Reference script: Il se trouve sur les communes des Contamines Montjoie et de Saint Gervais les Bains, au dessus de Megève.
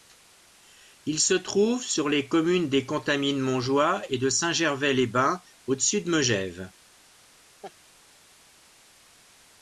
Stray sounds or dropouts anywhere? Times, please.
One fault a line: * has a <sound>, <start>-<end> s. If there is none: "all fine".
* has a laugh, 7.6-7.7 s